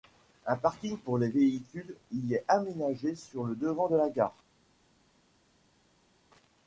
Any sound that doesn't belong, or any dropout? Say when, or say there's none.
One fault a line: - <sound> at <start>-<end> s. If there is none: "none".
none